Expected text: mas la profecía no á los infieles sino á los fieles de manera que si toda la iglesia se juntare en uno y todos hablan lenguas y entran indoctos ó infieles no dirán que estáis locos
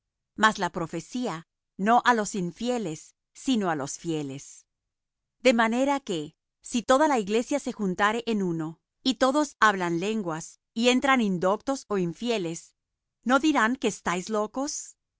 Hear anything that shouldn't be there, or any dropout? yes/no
no